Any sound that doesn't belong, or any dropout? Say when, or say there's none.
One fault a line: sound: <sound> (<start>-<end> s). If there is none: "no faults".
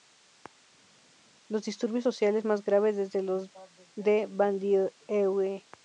no faults